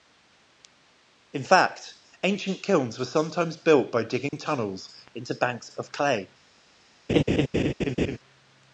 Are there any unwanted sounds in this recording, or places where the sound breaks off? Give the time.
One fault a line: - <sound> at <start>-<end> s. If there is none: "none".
- dropout at 4.3-4.3 s
- laugh at 7.1-8.2 s